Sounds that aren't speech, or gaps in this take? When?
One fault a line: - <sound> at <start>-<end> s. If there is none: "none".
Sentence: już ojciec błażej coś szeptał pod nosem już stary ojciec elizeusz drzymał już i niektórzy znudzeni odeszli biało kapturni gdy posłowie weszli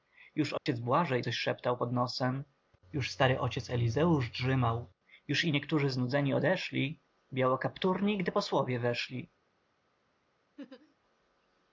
- dropout at 0.6-0.7 s
- laugh at 10.6-11.0 s